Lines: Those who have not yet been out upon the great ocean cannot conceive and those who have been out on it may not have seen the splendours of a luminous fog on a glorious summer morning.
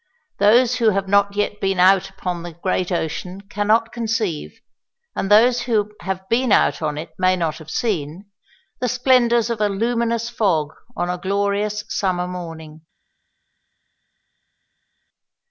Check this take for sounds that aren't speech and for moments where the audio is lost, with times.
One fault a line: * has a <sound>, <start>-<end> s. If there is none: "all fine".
all fine